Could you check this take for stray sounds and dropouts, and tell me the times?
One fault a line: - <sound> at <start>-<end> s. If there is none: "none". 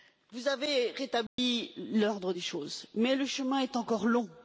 - dropout at 1.3-1.4 s